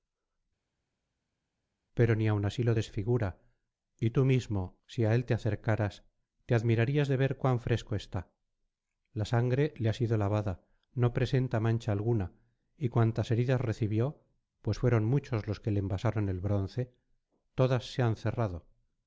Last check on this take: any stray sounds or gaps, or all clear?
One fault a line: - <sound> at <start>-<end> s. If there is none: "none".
none